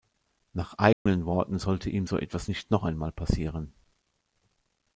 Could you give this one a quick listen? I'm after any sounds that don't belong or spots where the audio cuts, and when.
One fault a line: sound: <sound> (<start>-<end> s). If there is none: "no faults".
sound: dropout (0.9-1.1 s)